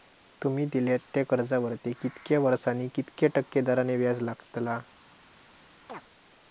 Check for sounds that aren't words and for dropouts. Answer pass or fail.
fail